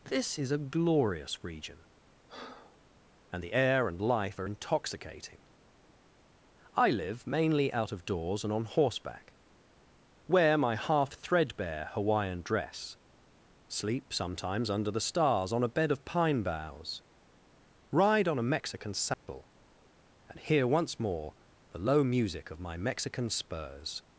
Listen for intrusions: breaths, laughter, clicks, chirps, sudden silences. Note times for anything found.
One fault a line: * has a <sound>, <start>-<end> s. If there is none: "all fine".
* has a breath, 2.3-2.8 s
* has a dropout, 19.1-19.3 s